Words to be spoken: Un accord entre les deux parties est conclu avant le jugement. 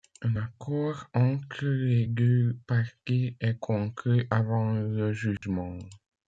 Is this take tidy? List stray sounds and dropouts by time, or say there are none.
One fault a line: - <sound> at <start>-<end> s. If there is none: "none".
- dropout at 5.4-5.4 s